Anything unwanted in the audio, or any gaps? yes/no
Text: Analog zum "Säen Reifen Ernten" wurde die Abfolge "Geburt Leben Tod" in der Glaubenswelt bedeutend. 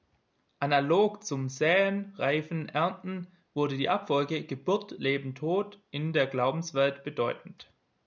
no